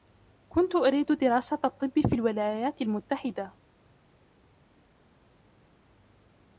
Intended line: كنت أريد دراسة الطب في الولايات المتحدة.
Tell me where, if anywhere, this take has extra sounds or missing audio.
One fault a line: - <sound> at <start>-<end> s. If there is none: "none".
none